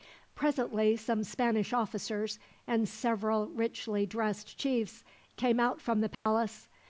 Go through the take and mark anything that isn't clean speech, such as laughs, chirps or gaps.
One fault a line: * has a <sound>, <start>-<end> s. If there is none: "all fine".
* has a dropout, 6.1-6.3 s